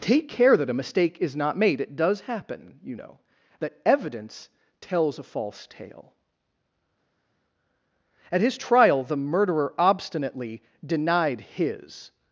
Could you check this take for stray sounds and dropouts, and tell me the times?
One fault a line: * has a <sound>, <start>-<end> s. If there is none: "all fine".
all fine